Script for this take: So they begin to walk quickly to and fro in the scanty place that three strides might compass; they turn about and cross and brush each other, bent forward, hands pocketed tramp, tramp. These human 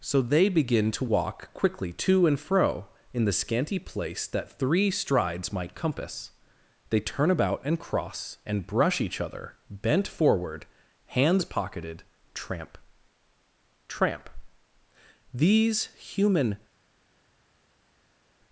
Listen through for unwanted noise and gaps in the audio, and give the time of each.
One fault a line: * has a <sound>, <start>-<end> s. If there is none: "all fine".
all fine